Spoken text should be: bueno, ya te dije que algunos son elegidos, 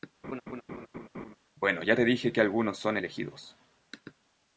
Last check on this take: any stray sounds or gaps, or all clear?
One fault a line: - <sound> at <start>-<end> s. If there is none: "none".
- laugh at 0.2-1.4 s